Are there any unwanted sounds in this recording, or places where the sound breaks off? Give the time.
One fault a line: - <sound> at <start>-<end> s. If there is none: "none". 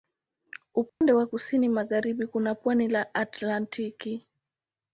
- dropout at 0.9-1.0 s